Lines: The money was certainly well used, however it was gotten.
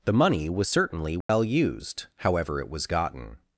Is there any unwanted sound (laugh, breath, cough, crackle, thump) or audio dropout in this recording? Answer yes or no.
yes